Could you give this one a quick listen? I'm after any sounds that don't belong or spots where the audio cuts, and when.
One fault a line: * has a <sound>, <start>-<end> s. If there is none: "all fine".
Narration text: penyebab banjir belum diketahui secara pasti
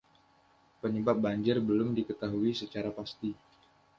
all fine